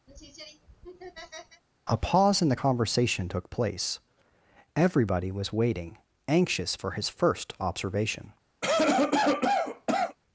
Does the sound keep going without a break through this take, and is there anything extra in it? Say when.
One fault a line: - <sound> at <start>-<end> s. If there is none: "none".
- laugh at 0.1-1.6 s
- cough at 8.6-10.2 s